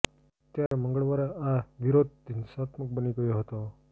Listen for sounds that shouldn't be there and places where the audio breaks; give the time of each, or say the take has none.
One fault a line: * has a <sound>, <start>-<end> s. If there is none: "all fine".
* has a dropout, 0.7-0.7 s